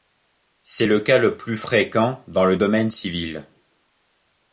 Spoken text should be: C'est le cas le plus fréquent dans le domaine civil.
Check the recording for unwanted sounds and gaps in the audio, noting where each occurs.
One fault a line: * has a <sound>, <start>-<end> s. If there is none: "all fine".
all fine